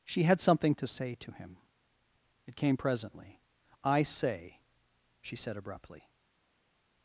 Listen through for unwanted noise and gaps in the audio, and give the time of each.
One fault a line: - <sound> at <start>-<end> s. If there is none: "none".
none